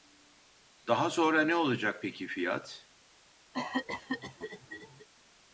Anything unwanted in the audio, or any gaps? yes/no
yes